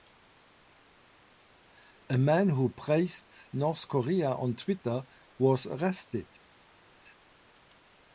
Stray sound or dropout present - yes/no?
no